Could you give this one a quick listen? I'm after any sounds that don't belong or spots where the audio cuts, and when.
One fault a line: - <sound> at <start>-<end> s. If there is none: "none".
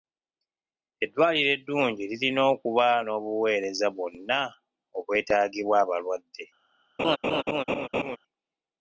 - laugh at 7.0-8.2 s